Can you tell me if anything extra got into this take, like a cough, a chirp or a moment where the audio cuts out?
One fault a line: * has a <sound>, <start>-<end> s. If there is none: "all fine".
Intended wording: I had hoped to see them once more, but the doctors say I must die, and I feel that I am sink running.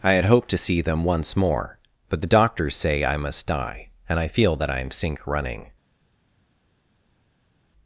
all fine